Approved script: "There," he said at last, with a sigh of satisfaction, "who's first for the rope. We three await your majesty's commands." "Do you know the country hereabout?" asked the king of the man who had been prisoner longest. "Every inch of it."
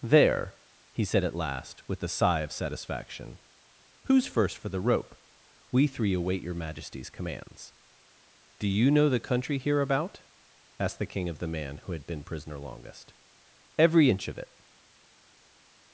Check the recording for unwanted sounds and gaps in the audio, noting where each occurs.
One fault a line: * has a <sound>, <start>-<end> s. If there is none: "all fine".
all fine